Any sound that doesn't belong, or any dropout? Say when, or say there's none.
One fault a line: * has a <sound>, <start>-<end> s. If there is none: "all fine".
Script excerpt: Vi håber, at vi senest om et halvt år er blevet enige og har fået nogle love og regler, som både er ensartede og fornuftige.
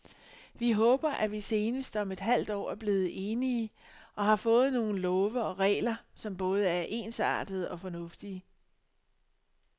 all fine